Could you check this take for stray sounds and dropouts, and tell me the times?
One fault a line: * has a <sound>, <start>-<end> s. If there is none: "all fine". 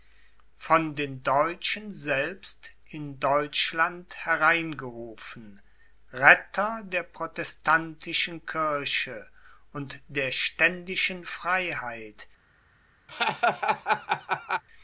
* has a laugh, 13.1-14.6 s